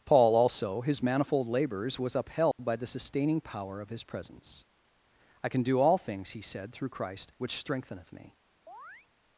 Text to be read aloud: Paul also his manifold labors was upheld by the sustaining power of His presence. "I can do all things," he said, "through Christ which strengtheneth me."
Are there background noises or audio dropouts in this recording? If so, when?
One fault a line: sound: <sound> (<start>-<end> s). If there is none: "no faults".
sound: dropout (2.5-2.6 s)
sound: chirp (8.7-9.1 s)